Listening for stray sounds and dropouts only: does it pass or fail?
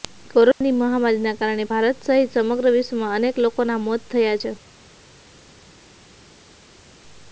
pass